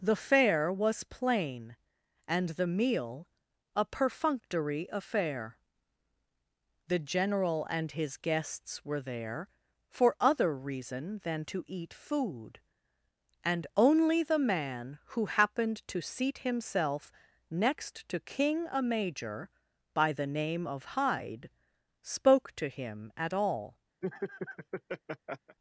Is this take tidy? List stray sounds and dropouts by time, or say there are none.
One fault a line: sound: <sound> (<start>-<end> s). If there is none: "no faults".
sound: laugh (24.0-25.6 s)